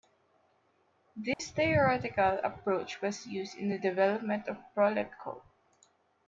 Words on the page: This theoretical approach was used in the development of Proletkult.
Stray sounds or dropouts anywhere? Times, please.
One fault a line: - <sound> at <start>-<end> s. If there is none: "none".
- dropout at 1.3-1.4 s